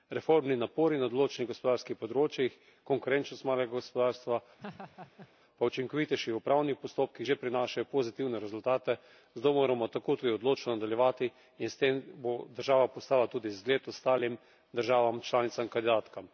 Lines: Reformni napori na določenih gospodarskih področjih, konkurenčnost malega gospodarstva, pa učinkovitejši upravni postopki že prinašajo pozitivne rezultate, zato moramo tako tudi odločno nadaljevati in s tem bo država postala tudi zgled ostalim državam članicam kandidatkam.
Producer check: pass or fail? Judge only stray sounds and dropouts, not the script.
fail